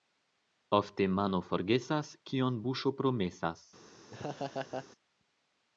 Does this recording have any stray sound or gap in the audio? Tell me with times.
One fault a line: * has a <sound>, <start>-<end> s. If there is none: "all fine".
* has a laugh, 4.1-4.9 s